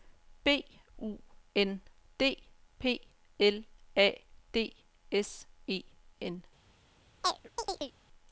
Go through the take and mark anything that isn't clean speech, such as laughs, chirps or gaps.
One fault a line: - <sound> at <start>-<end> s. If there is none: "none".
- chirp at 7.2-7.9 s